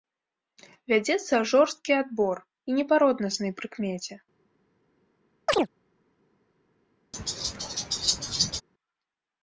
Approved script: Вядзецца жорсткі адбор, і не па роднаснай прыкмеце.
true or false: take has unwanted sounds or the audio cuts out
true